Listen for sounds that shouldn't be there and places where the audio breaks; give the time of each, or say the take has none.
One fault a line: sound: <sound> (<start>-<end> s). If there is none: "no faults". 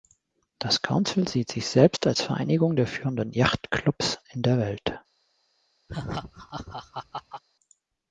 sound: laugh (5.9-7.4 s)